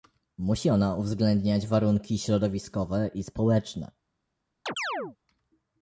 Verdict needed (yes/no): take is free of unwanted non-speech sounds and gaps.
no